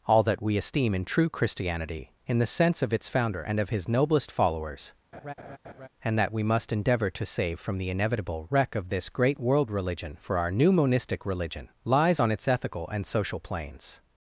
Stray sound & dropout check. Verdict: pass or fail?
fail